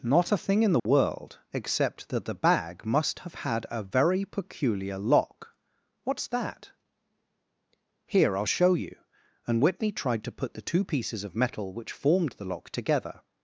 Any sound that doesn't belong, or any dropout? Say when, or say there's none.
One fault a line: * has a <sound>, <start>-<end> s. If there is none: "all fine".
* has a dropout, 0.8-0.9 s